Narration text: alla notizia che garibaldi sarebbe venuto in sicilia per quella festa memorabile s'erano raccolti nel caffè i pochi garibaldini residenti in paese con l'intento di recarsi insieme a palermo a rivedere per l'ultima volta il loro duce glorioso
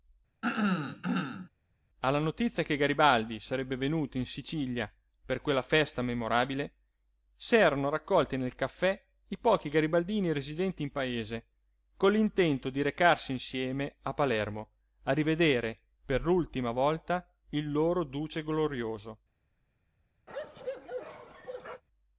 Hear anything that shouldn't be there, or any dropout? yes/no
yes